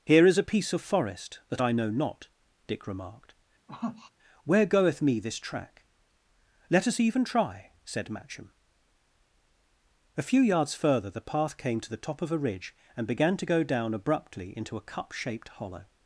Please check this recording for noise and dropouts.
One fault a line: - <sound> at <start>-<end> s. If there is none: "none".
- sniff at 3.7-4.1 s